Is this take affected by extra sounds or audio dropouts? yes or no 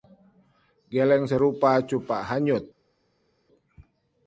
no